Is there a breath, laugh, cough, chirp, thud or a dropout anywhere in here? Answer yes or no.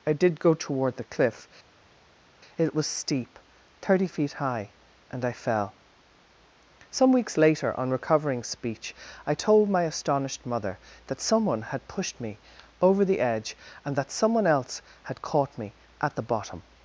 no